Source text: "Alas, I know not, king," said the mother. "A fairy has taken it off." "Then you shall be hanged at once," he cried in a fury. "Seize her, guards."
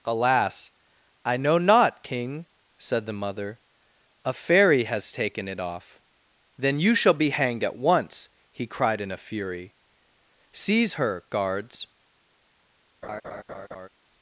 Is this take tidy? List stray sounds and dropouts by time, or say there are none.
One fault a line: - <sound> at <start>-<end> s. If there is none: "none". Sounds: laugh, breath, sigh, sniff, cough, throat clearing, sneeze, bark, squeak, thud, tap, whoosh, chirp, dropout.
- laugh at 13.0-13.9 s